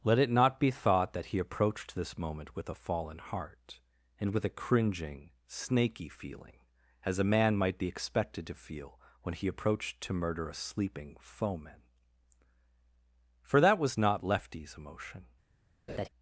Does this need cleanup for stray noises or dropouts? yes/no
yes